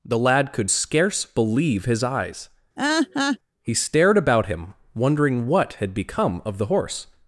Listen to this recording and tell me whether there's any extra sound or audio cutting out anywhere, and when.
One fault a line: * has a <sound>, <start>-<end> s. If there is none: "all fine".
* has a laugh, 2.8-3.4 s